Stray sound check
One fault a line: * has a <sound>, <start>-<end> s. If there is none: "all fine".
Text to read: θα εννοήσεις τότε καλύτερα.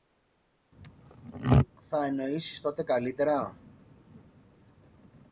all fine